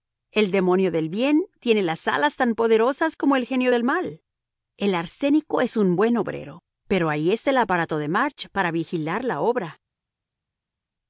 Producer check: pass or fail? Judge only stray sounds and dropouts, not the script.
pass